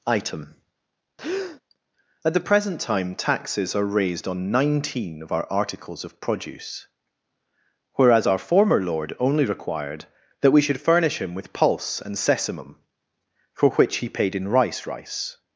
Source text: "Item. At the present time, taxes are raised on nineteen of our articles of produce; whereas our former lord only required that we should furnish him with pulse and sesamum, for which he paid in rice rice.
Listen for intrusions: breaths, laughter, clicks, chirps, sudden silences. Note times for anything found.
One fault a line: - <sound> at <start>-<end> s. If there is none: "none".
- breath at 1.2-1.6 s